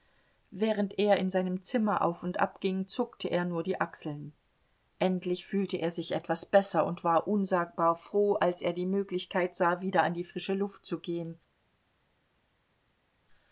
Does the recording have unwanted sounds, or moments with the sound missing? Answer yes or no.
no